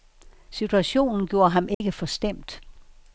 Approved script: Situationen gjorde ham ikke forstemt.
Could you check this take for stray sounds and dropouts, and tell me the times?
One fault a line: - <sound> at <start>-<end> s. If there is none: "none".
- dropout at 1.7-1.8 s